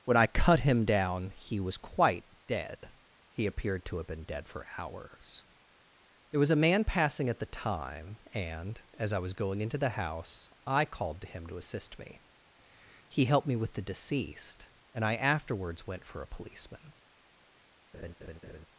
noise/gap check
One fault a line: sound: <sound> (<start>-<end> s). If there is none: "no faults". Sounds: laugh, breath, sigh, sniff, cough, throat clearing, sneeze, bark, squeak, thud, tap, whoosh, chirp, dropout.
sound: laugh (17.9-18.7 s)